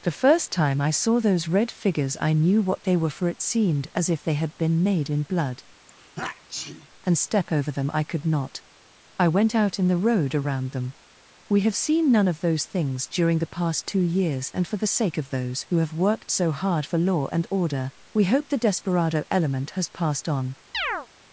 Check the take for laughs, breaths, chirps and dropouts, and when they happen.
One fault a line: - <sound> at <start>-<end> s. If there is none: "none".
- sneeze at 5.9-6.9 s
- chirp at 20.7-21.1 s